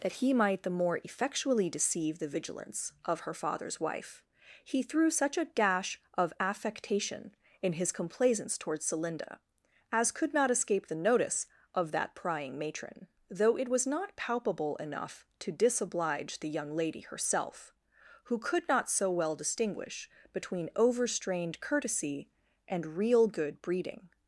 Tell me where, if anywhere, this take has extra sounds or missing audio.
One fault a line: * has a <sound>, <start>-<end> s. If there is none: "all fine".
all fine